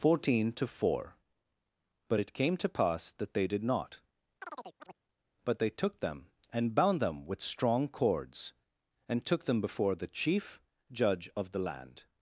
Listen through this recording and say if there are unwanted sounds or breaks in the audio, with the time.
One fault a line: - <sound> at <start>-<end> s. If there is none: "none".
- chirp at 4.4-5.0 s